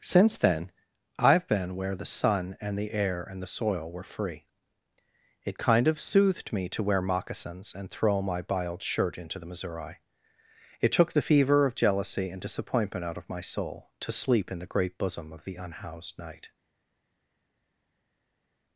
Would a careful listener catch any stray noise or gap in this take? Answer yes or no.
no